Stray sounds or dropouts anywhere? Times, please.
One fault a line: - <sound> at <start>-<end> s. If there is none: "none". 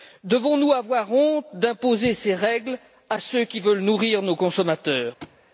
- thud at 5.2-5.4 s